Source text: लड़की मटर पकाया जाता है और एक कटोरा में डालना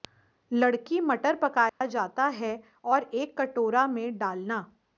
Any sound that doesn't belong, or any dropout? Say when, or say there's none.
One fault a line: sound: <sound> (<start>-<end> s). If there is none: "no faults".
sound: dropout (1.7-1.8 s)